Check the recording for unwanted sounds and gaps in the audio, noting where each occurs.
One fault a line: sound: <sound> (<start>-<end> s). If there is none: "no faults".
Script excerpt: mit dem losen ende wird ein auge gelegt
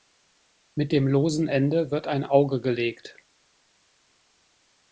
no faults